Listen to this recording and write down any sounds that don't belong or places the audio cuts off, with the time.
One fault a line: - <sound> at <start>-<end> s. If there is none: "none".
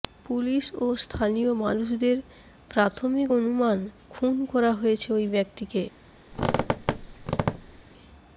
- squeak at 6.3-7.8 s